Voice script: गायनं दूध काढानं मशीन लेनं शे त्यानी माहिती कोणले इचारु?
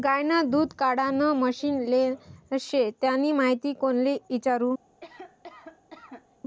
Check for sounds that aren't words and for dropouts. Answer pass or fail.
fail